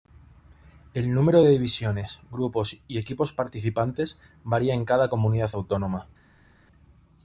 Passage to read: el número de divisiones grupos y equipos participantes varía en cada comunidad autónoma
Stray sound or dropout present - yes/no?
no